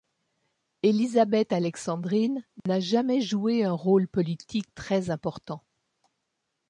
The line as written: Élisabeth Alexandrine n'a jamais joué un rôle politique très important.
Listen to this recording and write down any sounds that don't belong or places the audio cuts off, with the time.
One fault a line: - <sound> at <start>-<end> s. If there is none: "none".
- dropout at 2.6-2.7 s